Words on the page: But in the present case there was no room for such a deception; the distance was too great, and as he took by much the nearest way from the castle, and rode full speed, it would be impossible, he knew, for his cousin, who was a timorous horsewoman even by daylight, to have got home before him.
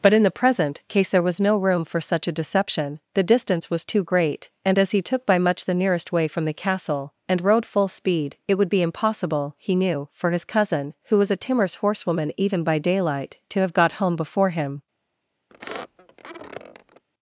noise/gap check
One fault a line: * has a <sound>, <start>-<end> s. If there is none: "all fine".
* has a squeak, 15.5-17.0 s